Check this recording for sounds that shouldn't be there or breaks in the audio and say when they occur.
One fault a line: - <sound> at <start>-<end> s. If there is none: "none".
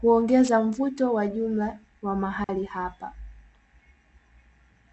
- dropout at 2.4-2.5 s